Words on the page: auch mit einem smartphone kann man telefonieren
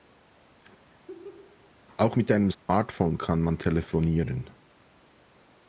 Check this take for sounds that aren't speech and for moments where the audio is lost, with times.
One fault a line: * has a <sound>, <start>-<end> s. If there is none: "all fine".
* has a laugh, 0.9-1.7 s
* has a dropout, 2.5-2.7 s